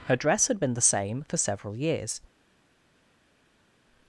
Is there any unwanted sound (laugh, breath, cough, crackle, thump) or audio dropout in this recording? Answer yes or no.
no